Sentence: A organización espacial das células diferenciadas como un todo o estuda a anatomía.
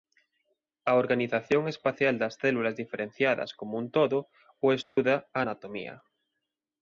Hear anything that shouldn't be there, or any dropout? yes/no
yes